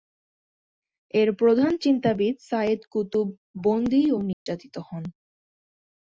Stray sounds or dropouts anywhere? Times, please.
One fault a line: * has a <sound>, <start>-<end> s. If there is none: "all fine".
* has a dropout, 4.3-4.5 s